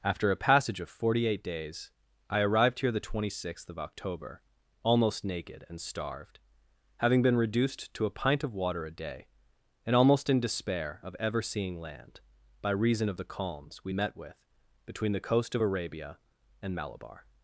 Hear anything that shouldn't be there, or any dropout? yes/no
no